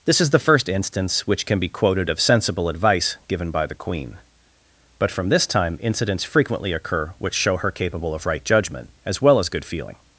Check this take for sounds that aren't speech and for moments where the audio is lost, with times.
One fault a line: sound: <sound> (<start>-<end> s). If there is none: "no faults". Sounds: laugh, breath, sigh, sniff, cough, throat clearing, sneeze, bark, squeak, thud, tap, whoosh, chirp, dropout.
no faults